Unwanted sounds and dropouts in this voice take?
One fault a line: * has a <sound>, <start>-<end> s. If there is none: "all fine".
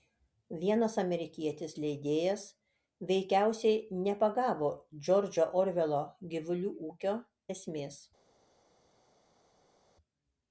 all fine